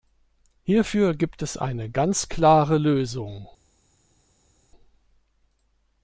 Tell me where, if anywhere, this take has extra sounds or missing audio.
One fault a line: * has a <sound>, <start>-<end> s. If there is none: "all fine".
all fine